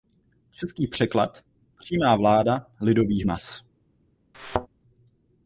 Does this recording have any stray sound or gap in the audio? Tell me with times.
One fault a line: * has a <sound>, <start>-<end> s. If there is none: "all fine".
* has a thud, 4.3-4.7 s